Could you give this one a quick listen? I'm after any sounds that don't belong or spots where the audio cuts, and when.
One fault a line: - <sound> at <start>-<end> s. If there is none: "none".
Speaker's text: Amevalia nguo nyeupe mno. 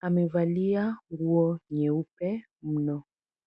none